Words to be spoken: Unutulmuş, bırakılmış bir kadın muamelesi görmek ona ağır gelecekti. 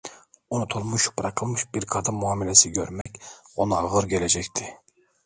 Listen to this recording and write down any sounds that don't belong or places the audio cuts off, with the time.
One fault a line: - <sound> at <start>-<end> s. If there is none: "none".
- dropout at 3.0-3.1 s